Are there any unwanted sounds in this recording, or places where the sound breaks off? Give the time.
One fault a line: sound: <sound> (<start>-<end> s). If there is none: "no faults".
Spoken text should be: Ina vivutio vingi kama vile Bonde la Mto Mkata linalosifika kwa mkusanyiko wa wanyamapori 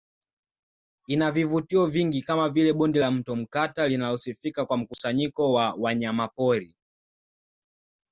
no faults